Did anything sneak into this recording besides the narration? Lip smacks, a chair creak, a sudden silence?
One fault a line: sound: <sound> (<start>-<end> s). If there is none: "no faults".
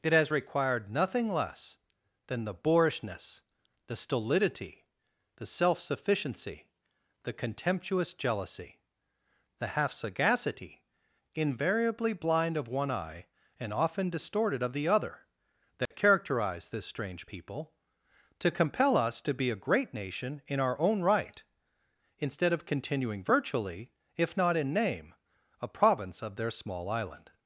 sound: dropout (15.9-15.9 s)